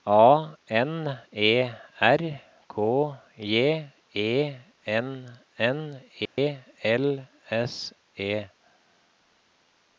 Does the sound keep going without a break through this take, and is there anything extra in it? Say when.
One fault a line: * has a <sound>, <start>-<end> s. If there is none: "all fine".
* has a dropout, 6.3-6.4 s